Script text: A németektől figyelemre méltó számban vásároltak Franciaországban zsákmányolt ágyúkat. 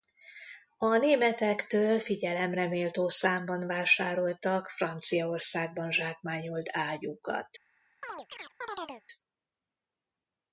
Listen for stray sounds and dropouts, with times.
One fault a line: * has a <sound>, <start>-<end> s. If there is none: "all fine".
* has a chirp, 8.0-9.0 s